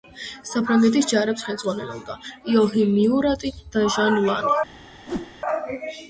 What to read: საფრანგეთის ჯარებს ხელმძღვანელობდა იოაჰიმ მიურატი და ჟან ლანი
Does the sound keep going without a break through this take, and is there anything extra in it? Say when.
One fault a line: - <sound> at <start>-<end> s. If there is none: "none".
- whoosh at 5.1-5.3 s